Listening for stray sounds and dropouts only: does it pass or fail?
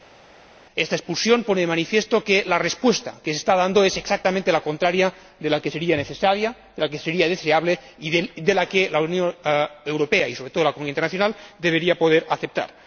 pass